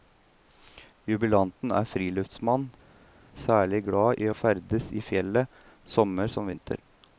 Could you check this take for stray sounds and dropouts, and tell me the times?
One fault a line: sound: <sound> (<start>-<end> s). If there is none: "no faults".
no faults